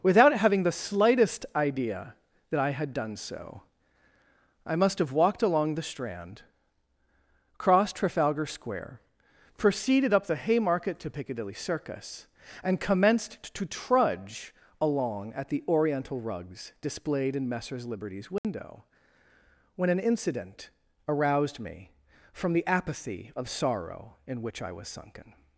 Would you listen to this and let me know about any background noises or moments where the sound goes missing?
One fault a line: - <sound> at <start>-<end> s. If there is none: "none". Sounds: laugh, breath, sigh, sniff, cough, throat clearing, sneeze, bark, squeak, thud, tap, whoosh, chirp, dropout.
- dropout at 18.4-18.4 s